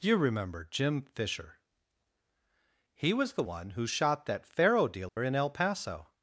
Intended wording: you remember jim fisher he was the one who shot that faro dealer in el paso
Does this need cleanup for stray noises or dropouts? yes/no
yes